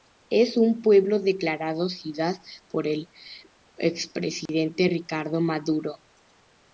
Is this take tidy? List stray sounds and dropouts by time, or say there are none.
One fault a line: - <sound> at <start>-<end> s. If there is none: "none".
- dropout at 4.5-4.5 s